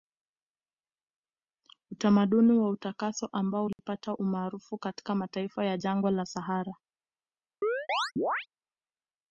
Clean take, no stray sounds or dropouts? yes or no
no